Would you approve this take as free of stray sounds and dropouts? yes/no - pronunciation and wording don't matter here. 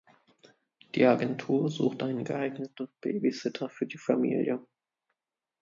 yes